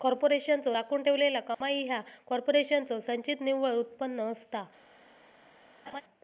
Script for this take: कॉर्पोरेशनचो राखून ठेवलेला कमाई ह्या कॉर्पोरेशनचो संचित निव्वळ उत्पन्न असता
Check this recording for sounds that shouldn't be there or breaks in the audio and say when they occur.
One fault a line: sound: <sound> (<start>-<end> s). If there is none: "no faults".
sound: dropout (1.5-1.6 s)
sound: laugh (5.9-6.0 s)